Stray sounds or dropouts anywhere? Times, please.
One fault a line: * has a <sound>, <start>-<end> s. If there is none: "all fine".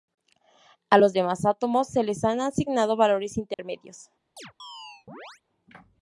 * has a dropout, 3.5-3.6 s
* has a chirp, 4.4-5.4 s